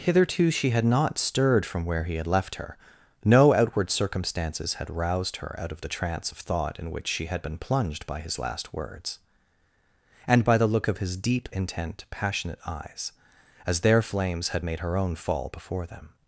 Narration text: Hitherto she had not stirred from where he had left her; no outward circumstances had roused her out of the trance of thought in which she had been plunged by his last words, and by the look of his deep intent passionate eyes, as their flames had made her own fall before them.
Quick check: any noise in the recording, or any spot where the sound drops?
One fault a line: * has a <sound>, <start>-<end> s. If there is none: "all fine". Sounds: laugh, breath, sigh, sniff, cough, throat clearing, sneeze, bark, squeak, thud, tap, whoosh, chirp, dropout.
all fine